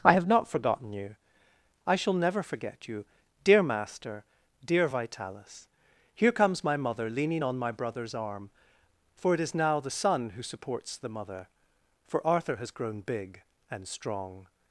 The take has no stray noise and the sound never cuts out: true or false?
true